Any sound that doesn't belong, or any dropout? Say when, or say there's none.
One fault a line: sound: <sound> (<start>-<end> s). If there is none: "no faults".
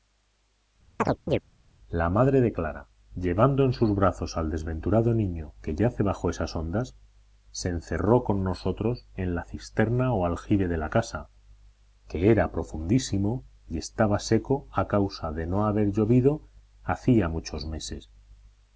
sound: chirp (1.0-1.4 s)